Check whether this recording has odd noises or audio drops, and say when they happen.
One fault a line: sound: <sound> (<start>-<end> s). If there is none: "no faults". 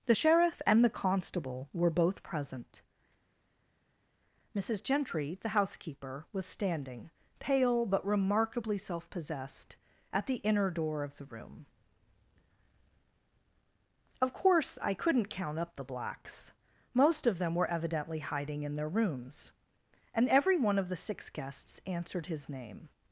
no faults